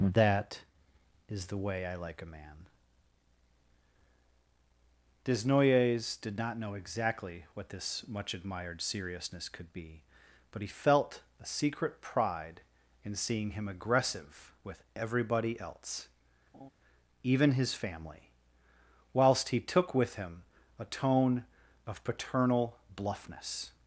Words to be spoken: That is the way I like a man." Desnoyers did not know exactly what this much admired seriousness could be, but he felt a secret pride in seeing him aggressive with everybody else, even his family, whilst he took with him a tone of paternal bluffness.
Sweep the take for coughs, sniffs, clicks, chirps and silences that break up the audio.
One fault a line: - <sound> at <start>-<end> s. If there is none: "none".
- laugh at 16.5-16.7 s